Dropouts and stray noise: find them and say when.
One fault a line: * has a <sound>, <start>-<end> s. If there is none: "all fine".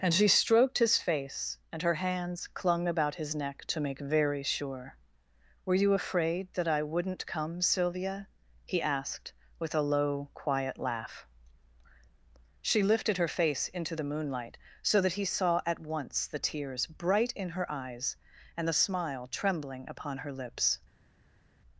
all fine